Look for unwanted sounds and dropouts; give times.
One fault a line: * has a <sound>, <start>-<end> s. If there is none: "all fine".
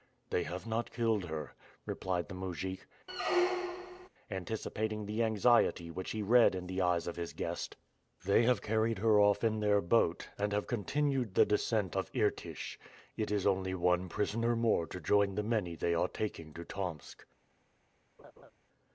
* has a squeak, 3.1-4.1 s
* has a laugh, 18.2-18.5 s